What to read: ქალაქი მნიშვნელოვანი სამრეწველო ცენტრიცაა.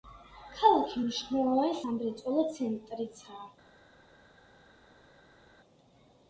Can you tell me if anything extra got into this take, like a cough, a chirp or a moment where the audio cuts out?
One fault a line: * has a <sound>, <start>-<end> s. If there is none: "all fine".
all fine